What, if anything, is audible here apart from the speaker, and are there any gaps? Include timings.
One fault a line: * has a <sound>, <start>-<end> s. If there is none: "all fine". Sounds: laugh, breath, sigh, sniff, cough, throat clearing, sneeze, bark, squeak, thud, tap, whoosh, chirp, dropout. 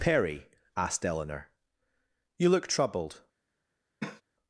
* has a cough, 4.0-4.2 s